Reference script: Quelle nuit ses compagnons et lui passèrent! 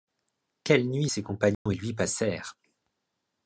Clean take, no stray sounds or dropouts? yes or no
no